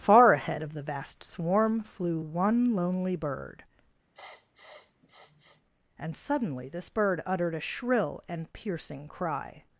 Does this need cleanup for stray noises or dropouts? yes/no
yes